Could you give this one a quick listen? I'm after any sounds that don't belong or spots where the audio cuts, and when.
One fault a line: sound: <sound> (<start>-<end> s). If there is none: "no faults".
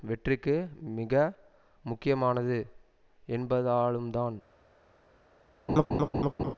sound: laugh (5.7-6.5 s)